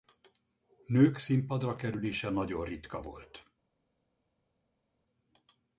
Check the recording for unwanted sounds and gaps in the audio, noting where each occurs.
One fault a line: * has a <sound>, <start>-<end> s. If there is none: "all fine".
all fine